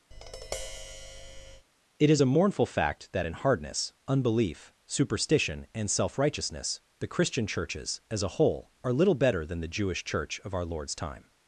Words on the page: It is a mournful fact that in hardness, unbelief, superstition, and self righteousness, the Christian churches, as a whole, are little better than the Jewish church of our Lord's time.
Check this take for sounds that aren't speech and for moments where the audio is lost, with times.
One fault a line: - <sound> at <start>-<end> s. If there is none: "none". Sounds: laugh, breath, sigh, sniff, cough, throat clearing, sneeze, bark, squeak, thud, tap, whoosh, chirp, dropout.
- tap at 0.1-1.7 s